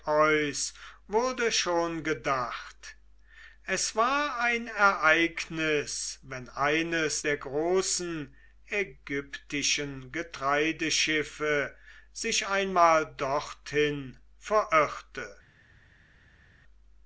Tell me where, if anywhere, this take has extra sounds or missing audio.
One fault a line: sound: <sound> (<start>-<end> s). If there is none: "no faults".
no faults